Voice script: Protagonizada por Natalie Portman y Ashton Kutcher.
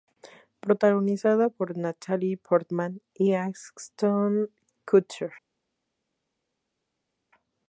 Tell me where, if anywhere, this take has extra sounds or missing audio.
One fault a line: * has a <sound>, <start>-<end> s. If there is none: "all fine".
all fine